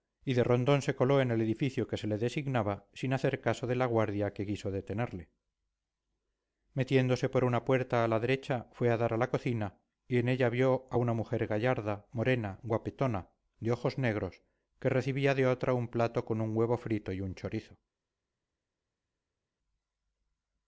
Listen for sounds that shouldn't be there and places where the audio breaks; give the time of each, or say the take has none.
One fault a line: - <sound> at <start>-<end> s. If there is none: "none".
none